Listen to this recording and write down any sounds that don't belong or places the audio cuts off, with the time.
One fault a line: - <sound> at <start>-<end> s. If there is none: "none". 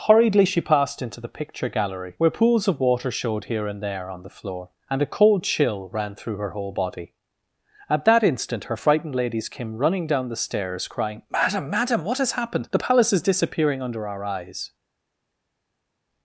none